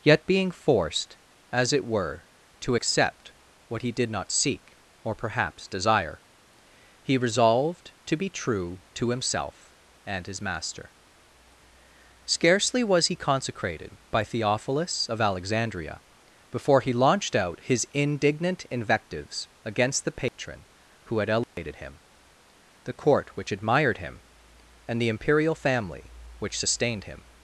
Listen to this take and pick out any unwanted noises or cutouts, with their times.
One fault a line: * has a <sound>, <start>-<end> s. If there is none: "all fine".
* has a dropout, 20.3-20.4 s
* has a dropout, 21.4-21.6 s